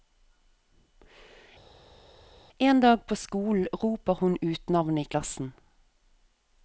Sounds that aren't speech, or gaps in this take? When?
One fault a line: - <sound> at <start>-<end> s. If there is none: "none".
none